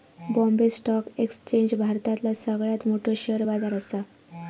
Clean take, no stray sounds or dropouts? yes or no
yes